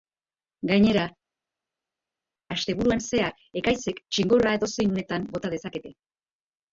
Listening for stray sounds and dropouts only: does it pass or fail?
pass